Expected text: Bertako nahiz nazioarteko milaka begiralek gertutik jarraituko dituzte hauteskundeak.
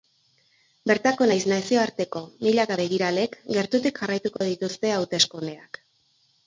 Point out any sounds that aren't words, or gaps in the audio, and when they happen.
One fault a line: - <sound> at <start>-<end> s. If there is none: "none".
- dropout at 4.4-4.4 s